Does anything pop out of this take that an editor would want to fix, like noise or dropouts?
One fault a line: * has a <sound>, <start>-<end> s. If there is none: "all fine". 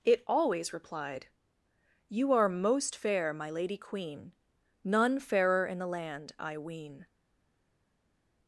all fine